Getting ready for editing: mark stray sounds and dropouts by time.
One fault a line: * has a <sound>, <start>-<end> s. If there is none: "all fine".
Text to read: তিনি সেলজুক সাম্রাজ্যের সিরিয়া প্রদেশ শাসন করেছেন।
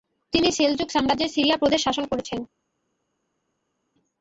all fine